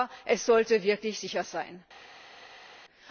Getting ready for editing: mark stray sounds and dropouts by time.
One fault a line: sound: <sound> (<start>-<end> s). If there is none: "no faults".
no faults